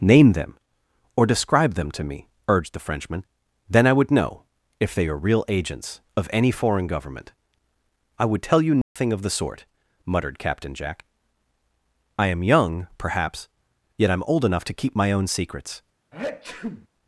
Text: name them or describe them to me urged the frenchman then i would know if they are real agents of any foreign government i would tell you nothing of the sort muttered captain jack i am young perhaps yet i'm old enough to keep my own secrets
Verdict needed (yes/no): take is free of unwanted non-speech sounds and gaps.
no